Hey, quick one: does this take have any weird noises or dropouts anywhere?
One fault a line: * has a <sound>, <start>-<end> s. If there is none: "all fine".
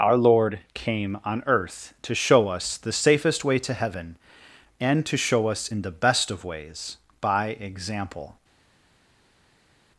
all fine